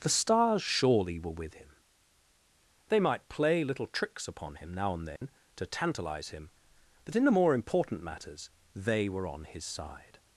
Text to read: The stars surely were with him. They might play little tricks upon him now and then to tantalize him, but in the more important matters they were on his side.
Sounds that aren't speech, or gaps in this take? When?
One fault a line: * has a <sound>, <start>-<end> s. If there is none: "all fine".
* has a dropout, 5.2-5.2 s